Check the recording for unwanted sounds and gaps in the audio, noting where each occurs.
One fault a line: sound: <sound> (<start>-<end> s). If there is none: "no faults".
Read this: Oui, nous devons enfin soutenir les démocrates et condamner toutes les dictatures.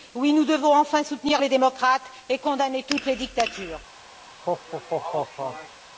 sound: laugh (4.3-5.8 s)